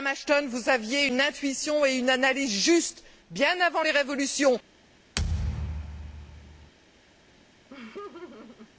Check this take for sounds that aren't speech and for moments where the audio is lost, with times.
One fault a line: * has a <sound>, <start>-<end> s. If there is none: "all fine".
* has a thud, 5.2-6.7 s
* has a laugh, 7.7-8.7 s